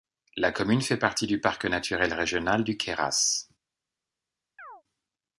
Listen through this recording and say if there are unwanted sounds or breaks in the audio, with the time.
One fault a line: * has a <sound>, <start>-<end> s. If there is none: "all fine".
* has a chirp, 4.6-4.8 s